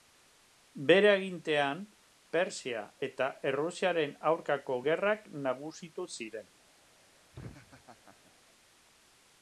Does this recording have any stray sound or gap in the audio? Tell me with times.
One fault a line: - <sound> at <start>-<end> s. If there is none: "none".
- laugh at 7.3-8.3 s